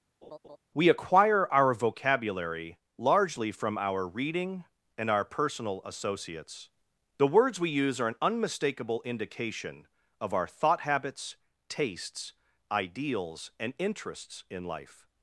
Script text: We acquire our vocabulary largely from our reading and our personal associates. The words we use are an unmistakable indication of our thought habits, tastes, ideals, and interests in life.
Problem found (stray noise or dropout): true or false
true